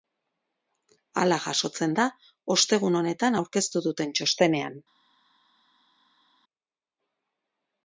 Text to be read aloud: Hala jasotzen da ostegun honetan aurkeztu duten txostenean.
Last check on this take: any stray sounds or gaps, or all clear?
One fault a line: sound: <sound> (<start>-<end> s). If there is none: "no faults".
no faults